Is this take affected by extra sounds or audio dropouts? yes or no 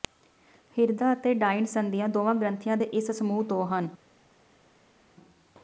no